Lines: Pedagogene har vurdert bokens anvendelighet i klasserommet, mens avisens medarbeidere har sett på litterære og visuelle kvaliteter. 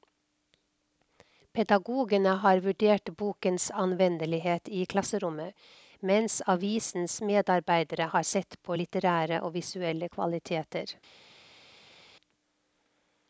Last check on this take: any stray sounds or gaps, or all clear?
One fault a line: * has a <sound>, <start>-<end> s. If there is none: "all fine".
all fine